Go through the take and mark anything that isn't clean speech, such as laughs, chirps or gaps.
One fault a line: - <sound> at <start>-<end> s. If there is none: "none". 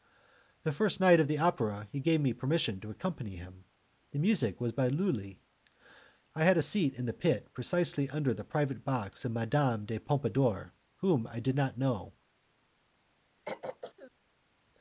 - throat clearing at 13.5-14.1 s